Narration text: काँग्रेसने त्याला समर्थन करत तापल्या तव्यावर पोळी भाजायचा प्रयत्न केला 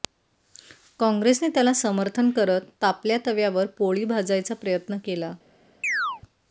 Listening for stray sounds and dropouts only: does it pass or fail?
fail